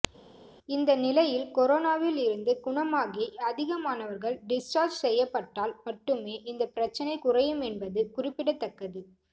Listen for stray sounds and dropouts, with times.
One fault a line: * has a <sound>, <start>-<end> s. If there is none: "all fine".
all fine